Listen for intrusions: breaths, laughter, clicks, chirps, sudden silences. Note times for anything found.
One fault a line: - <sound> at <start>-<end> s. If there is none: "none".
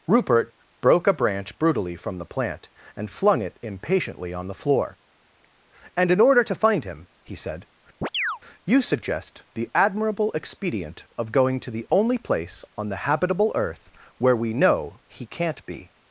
- chirp at 8.0-8.4 s